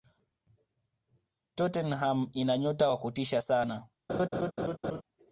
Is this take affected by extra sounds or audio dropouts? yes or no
yes